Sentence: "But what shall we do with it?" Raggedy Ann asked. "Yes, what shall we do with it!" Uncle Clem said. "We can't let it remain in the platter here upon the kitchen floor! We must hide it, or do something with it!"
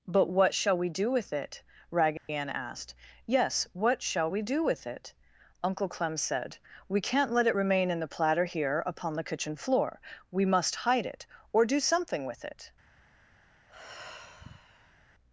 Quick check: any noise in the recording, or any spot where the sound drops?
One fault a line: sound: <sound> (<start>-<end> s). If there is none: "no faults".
sound: dropout (2.2-2.3 s)
sound: sigh (13.7-15.0 s)